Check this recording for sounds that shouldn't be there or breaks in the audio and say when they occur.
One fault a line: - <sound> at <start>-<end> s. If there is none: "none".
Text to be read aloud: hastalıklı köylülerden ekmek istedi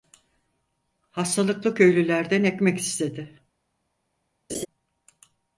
- laugh at 4.5-4.7 s